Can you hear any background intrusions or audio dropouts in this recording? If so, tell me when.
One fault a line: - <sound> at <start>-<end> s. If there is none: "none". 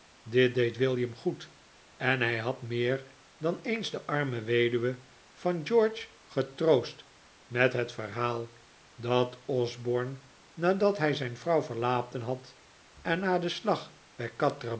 none